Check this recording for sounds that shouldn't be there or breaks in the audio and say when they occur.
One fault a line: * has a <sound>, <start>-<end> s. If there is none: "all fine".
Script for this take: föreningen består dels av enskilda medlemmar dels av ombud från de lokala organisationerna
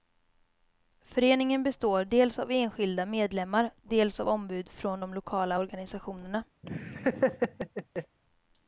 * has a laugh, 6.6-8.2 s